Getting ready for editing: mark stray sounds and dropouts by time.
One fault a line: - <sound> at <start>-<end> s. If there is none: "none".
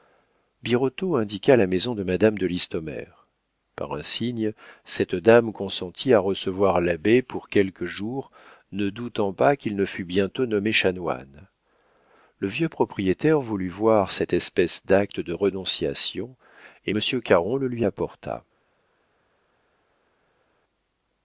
none